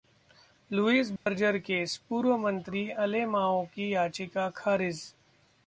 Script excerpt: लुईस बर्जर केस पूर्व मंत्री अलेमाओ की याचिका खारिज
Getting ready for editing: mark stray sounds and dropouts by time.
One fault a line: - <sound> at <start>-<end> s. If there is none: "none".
- dropout at 1.2-1.3 s